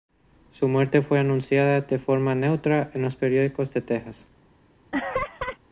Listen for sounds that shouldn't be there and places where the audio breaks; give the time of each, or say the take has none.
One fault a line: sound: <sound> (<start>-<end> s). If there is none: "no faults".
sound: laugh (4.9-5.6 s)